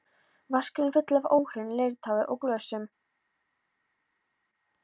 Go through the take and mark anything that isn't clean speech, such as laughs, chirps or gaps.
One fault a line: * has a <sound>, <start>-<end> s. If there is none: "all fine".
all fine